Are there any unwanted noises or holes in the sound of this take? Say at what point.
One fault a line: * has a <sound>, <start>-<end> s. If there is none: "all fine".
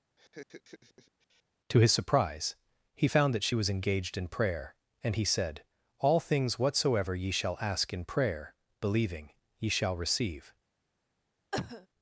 * has a laugh, 0.2-1.4 s
* has a cough, 11.5-11.9 s